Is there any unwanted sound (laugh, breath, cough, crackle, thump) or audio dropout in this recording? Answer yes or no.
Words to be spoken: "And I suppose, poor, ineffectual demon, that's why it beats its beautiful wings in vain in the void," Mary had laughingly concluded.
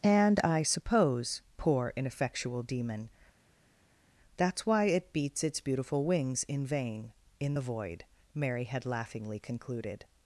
no